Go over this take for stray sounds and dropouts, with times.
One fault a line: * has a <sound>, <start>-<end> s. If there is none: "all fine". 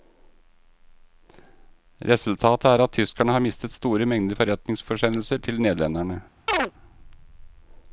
* has a chirp, 6.5-6.7 s